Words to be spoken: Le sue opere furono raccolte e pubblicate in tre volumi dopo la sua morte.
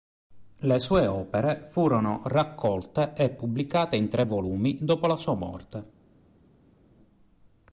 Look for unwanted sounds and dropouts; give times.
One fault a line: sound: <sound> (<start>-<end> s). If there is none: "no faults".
no faults